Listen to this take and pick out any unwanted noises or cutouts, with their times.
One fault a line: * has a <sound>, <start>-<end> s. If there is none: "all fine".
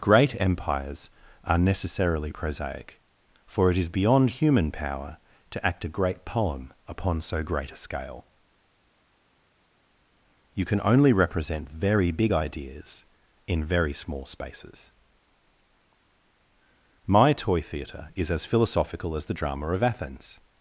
all fine